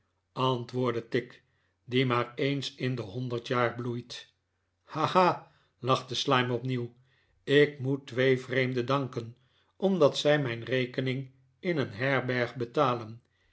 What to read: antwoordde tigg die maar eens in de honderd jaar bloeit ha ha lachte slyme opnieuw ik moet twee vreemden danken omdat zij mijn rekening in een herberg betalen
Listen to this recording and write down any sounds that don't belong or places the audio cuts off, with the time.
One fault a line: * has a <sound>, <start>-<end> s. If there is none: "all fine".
all fine